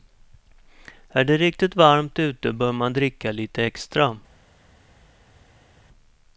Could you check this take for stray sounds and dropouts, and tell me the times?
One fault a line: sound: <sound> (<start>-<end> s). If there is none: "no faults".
no faults